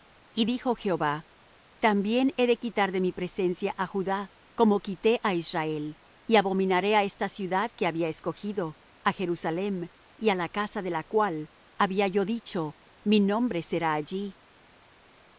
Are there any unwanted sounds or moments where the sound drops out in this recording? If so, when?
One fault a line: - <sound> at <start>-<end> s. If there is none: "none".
none